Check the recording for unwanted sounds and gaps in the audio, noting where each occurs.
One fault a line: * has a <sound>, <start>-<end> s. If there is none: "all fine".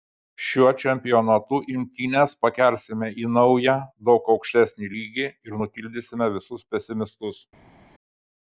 all fine